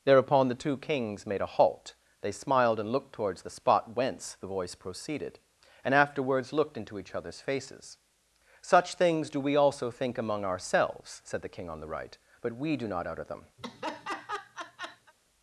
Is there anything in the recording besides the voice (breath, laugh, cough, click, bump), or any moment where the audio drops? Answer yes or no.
yes